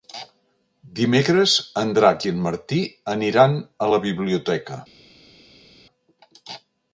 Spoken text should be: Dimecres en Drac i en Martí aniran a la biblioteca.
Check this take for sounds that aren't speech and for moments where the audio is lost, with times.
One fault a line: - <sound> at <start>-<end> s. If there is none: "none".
none